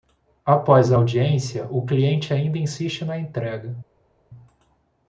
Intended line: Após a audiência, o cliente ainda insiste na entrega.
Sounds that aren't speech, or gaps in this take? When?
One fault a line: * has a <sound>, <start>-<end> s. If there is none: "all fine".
all fine